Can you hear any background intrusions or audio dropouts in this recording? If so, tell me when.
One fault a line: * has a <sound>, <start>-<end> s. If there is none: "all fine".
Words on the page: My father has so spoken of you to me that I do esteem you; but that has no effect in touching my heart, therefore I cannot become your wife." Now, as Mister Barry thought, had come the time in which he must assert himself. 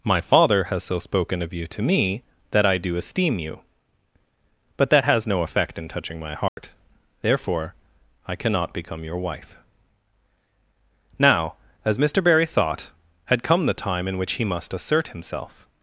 * has a dropout, 6.5-6.6 s